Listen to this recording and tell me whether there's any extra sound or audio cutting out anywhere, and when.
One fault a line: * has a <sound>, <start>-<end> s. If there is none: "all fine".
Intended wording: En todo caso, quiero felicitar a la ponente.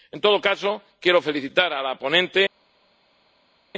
all fine